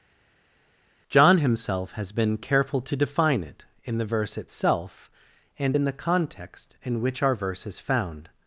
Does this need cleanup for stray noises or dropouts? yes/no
no